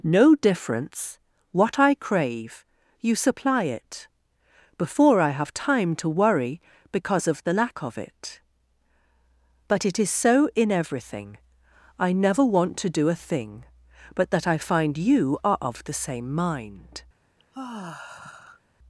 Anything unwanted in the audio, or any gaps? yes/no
yes